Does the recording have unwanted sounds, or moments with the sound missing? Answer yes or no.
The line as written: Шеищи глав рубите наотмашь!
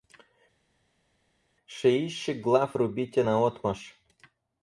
no